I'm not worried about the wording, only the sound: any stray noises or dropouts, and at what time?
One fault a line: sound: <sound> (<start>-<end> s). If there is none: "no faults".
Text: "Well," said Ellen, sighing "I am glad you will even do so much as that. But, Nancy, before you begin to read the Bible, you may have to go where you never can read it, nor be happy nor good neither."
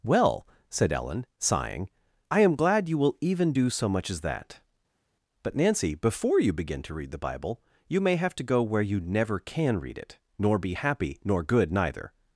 no faults